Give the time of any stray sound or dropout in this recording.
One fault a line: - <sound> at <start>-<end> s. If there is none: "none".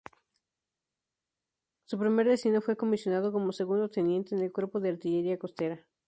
none